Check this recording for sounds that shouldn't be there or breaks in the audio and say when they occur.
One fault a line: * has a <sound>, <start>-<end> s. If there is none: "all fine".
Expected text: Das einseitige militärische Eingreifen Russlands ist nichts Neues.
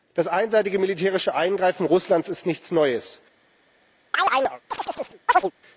* has a chirp, 4.1-5.5 s